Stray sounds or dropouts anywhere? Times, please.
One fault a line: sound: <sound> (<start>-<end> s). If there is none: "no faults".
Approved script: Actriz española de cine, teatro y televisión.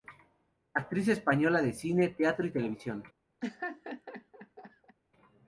sound: laugh (3.4-5.0 s)